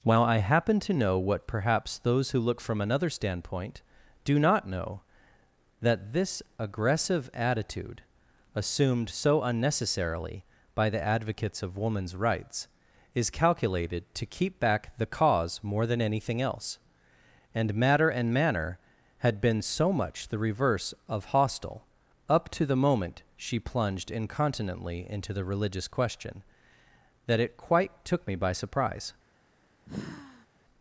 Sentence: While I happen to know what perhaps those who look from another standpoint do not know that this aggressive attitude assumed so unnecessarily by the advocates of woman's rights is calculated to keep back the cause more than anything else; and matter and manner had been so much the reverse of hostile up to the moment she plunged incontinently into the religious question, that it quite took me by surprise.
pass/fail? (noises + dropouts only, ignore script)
fail